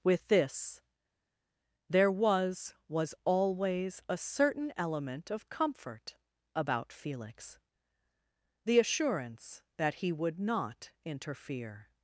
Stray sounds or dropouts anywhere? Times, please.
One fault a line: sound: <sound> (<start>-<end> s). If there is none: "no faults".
no faults